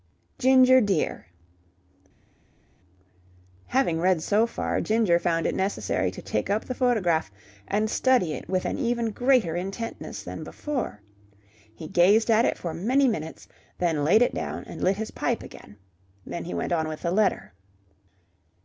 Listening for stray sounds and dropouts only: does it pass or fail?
pass